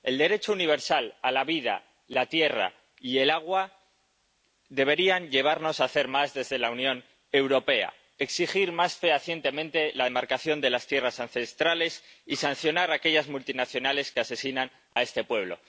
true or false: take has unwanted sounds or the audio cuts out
true